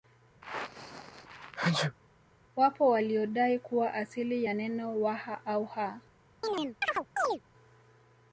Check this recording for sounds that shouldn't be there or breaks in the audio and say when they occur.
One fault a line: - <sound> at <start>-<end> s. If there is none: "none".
- sneeze at 0.4-2.0 s
- chirp at 6.4-7.4 s